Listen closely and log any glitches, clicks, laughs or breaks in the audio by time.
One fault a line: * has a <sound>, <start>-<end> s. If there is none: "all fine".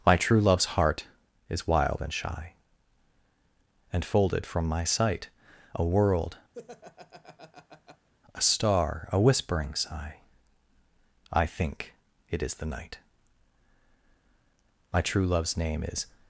* has a laugh, 6.5-8.1 s